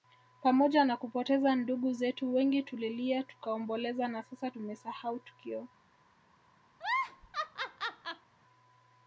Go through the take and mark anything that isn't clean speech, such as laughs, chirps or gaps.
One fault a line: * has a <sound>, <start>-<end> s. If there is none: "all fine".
* has a laugh, 6.7-8.3 s